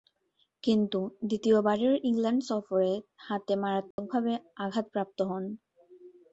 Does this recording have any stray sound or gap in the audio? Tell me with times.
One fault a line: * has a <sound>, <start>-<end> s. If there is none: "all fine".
* has a dropout, 3.9-4.0 s